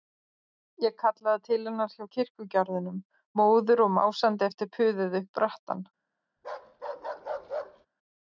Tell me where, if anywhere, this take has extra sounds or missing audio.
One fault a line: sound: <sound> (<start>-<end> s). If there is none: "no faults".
sound: bark (6.4-7.9 s)